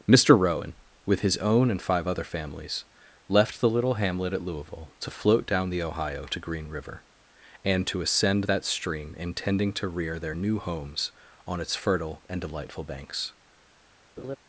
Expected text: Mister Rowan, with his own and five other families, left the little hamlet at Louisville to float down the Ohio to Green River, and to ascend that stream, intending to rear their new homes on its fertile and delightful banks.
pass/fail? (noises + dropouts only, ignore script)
fail